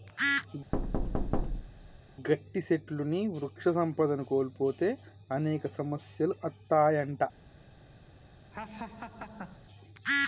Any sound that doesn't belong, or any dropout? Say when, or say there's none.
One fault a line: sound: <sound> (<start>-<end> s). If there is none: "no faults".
sound: thud (0.7-2.0 s)
sound: laugh (8.5-9.6 s)